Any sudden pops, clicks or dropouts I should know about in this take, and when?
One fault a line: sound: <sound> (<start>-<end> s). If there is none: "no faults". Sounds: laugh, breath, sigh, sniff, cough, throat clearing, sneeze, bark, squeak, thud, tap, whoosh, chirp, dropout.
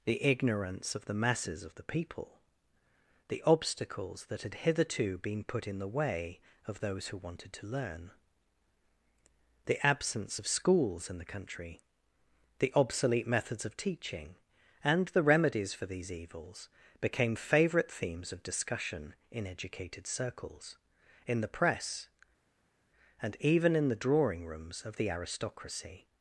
no faults